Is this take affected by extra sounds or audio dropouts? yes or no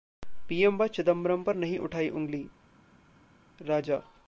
no